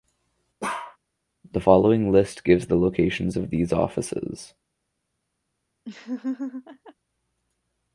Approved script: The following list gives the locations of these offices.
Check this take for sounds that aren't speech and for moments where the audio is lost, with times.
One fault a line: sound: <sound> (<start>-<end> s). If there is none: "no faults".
sound: bark (0.6-1.0 s)
sound: laugh (5.8-6.9 s)